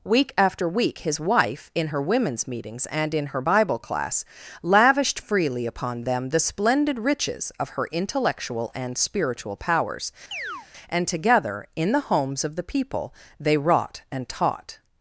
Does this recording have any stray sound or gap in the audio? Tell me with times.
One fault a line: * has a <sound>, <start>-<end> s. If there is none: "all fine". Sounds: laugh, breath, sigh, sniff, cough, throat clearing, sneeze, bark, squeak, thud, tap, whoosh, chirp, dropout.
* has a chirp, 10.3-10.7 s